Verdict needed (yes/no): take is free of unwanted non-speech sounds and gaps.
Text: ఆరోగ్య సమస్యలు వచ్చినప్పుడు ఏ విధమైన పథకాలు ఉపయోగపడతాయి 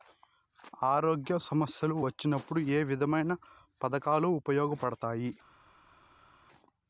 yes